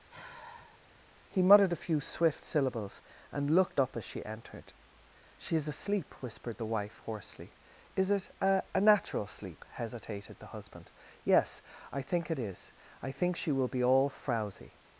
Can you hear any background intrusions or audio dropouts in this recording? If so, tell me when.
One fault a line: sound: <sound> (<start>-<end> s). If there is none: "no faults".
sound: sigh (0.1-0.8 s)